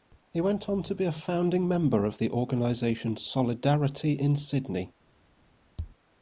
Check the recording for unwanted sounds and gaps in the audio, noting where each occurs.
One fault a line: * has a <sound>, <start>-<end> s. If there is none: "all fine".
all fine